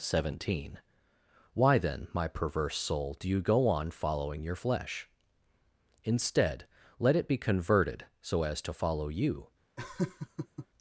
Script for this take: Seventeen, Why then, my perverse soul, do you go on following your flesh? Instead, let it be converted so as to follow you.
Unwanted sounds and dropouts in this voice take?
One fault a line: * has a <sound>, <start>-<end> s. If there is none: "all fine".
* has a laugh, 9.8-10.7 s